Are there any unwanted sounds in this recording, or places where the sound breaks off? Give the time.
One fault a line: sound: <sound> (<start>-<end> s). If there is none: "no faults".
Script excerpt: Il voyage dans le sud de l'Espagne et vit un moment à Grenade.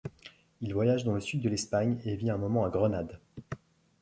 no faults